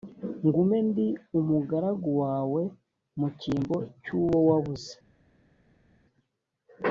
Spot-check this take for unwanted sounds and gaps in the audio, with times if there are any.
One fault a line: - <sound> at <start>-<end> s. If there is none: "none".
none